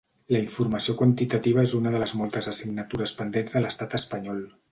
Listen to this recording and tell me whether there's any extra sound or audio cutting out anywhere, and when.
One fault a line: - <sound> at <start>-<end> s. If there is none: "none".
none